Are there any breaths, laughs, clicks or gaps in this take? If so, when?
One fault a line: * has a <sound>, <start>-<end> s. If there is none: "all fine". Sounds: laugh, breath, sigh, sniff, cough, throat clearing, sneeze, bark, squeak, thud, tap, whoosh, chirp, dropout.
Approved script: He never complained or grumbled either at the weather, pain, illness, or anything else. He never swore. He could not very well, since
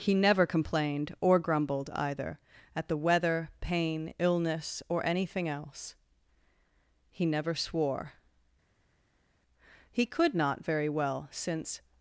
all fine